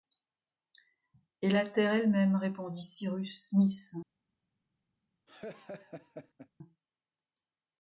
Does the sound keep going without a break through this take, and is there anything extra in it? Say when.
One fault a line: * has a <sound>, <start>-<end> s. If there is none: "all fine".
* has a laugh, 5.3-6.5 s